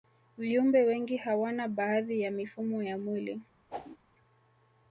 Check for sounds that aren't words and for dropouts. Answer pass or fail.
fail